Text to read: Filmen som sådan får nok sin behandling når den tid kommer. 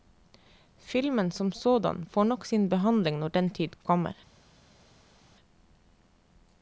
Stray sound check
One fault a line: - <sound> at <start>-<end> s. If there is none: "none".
none